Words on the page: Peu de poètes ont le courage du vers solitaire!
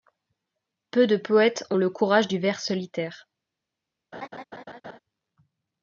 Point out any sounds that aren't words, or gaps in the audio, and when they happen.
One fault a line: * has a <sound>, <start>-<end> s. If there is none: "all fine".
* has a laugh, 4.1-5.0 s